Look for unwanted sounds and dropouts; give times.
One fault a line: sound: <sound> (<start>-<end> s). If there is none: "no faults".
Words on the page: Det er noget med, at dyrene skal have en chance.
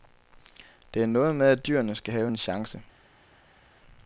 no faults